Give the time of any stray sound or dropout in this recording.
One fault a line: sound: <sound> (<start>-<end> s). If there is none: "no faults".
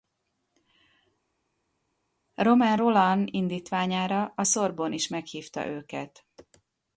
no faults